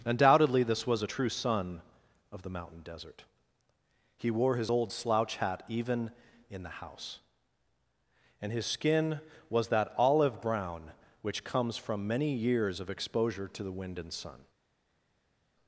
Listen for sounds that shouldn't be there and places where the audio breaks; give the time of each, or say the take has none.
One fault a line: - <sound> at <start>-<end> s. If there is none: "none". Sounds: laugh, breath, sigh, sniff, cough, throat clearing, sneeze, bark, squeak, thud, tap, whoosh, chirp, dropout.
none